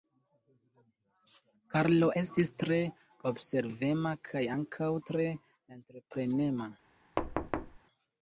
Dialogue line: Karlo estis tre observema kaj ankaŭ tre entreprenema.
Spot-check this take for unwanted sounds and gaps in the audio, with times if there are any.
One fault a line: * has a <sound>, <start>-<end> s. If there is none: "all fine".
* has a thud, 7.2-7.8 s